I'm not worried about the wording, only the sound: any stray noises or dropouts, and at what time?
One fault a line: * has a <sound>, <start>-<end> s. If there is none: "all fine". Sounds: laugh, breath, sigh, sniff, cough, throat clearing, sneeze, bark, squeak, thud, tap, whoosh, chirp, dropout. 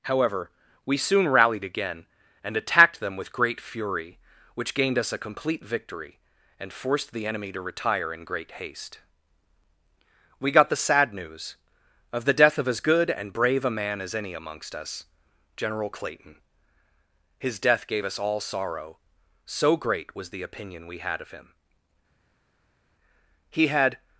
all fine